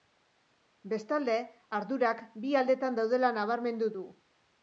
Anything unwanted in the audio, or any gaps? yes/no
no